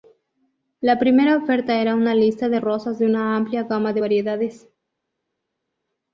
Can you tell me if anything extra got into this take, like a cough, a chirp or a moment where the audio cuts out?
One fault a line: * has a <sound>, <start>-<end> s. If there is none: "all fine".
all fine